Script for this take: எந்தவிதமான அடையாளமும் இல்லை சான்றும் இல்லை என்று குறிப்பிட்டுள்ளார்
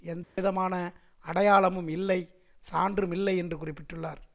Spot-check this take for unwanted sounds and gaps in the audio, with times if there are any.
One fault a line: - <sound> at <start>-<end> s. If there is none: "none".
- dropout at 0.2-0.4 s